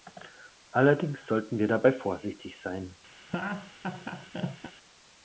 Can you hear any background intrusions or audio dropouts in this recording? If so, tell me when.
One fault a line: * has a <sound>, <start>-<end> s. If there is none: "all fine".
* has a laugh, 3.2-4.7 s